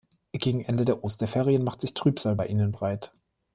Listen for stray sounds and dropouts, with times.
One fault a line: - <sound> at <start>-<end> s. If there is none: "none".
none